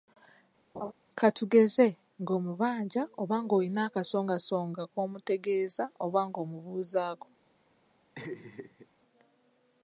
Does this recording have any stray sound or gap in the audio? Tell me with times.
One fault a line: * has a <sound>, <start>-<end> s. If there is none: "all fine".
* has a laugh, 0.7-0.9 s
* has a laugh, 8.2-8.9 s